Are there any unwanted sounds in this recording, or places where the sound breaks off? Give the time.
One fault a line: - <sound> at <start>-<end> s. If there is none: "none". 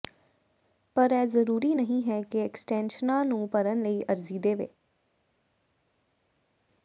none